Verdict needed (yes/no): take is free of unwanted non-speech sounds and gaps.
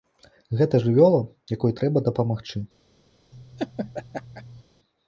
no